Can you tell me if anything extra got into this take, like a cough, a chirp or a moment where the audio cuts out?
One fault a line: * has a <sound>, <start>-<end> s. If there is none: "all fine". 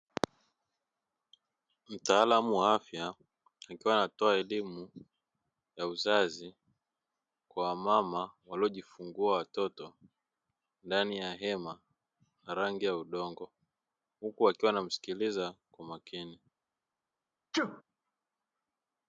* has a sneeze, 17.5-17.8 s